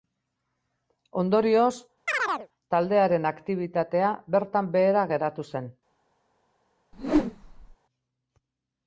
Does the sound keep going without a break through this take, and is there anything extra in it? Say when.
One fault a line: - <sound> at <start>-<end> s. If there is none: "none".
- chirp at 2.1-2.5 s
- whoosh at 6.9-7.8 s